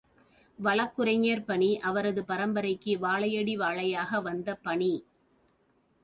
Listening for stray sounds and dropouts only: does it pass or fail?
pass